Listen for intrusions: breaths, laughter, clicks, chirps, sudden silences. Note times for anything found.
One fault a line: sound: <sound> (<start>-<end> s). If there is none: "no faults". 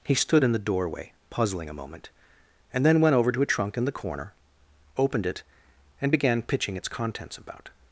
no faults